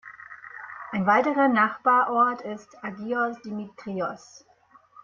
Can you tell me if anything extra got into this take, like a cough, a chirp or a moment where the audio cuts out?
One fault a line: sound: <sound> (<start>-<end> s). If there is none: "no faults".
no faults